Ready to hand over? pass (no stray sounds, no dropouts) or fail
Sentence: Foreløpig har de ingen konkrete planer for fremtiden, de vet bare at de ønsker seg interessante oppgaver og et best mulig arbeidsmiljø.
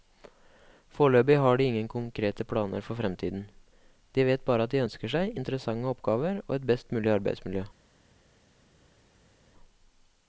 pass